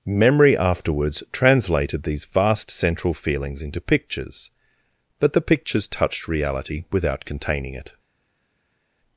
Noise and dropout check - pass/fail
pass